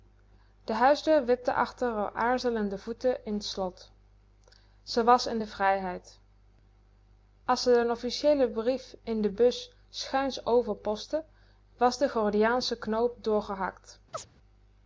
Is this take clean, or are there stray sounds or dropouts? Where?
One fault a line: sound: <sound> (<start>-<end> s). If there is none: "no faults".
sound: chirp (14.1-14.3 s)